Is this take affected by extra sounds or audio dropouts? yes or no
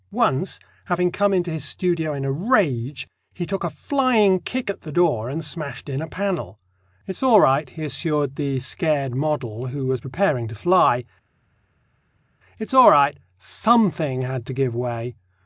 no